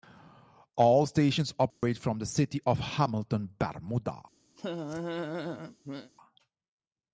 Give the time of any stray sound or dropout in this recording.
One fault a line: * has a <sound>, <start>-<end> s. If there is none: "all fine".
* has a dropout, 1.7-1.8 s
* has a laugh, 4.6-6.1 s